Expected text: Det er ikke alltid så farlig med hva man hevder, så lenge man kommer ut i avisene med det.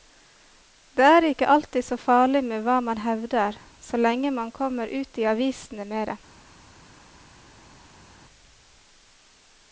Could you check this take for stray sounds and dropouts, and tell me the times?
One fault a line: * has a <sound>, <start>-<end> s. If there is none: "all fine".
all fine